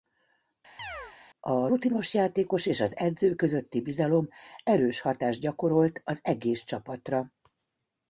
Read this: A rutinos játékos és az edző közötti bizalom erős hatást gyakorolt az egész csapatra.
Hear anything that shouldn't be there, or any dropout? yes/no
yes